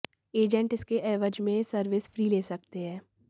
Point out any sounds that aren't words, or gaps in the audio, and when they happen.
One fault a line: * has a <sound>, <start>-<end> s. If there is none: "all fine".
all fine